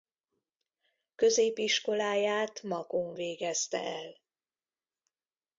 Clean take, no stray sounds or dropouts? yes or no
yes